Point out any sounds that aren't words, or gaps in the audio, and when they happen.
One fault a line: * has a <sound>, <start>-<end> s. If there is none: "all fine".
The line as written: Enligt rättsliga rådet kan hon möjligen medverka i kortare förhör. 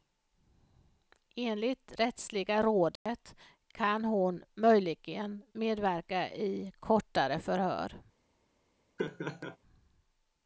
* has a dropout, 3.0-3.1 s
* has a laugh, 9.0-9.6 s